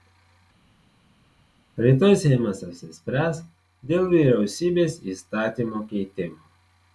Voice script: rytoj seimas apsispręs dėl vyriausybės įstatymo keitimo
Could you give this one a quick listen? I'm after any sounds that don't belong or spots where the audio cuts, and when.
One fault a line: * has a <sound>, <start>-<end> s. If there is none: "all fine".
all fine